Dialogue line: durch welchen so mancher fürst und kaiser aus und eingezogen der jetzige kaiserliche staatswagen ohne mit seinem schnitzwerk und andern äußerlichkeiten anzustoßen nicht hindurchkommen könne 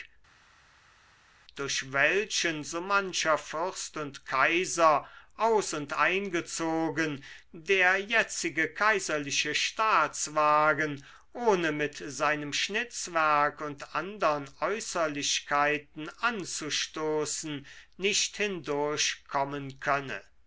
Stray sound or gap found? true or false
false